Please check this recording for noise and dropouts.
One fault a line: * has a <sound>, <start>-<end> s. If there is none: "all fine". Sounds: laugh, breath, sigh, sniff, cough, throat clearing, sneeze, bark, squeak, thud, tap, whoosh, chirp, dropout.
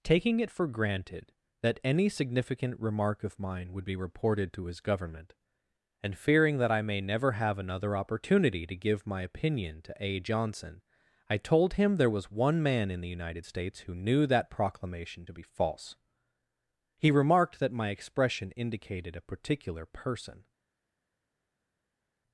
all fine